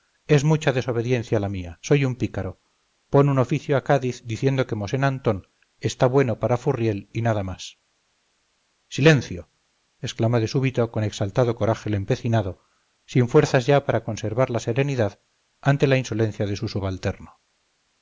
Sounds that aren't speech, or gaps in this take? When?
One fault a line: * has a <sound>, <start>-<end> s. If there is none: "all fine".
all fine